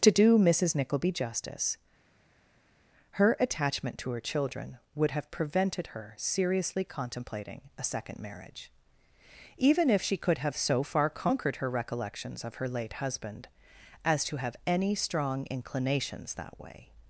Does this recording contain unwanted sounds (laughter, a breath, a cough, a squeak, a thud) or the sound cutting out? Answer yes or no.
no